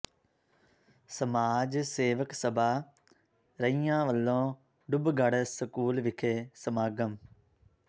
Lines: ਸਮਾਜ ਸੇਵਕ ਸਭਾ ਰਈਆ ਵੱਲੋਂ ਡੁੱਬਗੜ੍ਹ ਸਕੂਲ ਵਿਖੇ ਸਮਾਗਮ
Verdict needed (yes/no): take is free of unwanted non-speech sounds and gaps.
yes